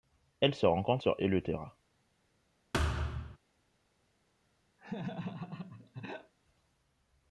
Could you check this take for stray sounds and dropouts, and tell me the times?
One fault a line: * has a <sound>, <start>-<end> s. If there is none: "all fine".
* has a thud, 2.7-3.4 s
* has a laugh, 4.8-6.3 s